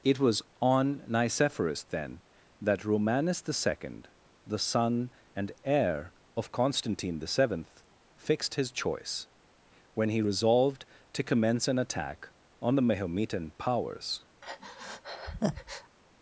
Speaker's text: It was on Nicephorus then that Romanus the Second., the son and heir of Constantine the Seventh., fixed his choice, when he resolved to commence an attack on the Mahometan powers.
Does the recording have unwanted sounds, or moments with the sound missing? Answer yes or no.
yes